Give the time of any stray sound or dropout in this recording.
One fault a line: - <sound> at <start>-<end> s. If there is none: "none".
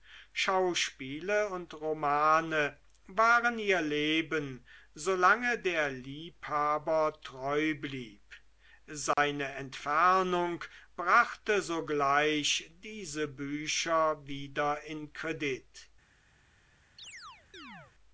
- dropout at 9.1-9.2 s
- chirp at 17.0-17.9 s